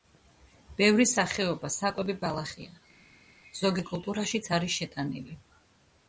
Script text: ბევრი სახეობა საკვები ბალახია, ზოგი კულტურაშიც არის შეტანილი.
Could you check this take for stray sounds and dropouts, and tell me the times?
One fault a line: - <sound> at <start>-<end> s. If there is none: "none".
none